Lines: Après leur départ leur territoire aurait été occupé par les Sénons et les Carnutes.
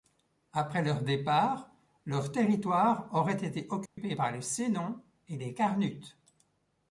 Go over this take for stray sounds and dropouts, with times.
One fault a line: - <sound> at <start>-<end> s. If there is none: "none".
- dropout at 3.9-4.0 s